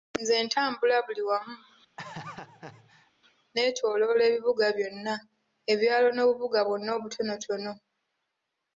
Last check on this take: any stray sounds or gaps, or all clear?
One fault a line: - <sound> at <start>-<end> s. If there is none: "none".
- laugh at 2.0-3.1 s